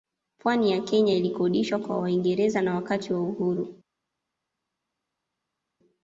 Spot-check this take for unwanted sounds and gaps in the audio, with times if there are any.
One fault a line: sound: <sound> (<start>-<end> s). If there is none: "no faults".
no faults